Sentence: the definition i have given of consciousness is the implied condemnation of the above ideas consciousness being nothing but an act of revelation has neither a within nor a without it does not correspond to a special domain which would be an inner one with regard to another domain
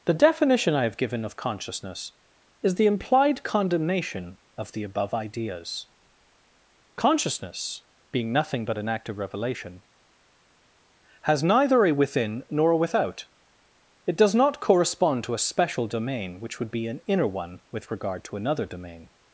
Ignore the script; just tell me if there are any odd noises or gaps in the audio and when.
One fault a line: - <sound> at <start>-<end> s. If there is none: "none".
none